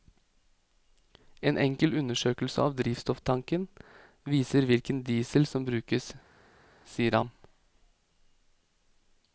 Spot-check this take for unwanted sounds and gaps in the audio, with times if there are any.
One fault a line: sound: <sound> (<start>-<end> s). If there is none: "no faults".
no faults